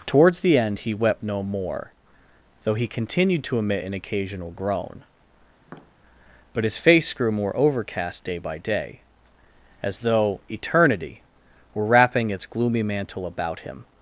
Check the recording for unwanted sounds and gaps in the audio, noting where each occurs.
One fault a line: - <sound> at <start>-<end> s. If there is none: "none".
- tap at 5.6-5.9 s